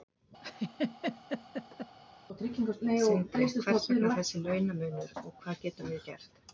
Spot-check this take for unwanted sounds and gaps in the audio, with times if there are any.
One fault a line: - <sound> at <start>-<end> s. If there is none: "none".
- laugh at 0.4-2.0 s